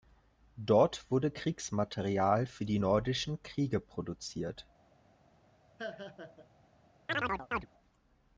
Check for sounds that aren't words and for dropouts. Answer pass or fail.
fail